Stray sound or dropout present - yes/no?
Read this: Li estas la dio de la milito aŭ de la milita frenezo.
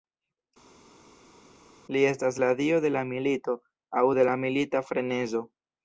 no